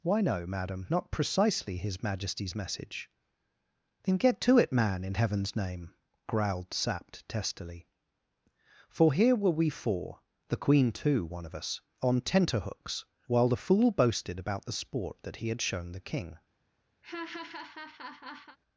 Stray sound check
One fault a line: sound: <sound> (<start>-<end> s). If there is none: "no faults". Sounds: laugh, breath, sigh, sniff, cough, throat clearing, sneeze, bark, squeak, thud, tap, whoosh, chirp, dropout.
sound: laugh (17.0-18.6 s)